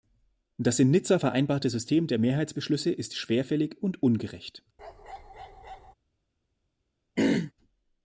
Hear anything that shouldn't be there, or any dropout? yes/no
yes